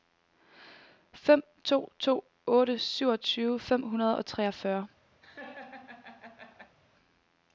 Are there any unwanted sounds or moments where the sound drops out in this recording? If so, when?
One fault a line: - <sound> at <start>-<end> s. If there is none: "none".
- laugh at 5.2-6.8 s